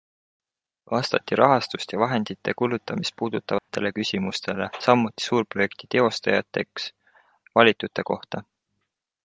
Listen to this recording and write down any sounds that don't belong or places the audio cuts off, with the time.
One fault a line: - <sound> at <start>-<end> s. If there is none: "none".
- dropout at 3.6-3.7 s